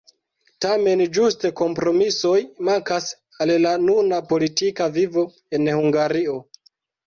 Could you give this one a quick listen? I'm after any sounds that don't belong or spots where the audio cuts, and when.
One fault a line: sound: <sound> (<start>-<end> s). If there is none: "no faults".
no faults